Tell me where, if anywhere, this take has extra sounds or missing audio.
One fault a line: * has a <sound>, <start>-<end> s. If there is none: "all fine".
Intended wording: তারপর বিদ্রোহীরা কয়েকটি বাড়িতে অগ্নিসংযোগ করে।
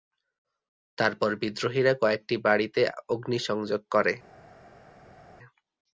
all fine